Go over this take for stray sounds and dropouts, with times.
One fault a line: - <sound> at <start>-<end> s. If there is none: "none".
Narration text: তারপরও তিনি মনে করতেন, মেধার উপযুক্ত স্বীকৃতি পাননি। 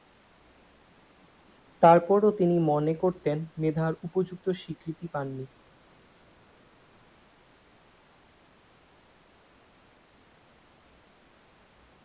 none